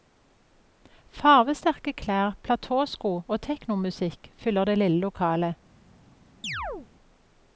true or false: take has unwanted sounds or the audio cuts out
true